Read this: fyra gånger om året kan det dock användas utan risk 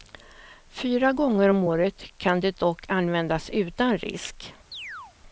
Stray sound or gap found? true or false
true